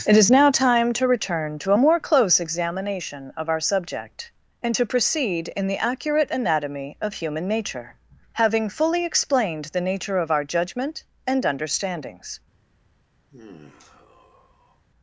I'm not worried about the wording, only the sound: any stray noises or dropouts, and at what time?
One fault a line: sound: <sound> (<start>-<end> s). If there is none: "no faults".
sound: sigh (13.3-14.9 s)